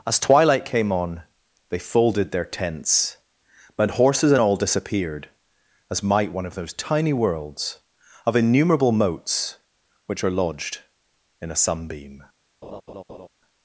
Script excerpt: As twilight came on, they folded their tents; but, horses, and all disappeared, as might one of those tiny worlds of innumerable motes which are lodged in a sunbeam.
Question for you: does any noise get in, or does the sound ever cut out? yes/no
yes